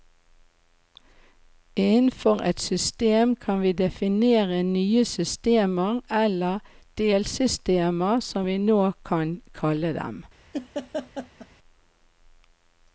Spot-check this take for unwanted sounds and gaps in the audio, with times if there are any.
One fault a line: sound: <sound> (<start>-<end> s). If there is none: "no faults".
sound: laugh (10.5-11.5 s)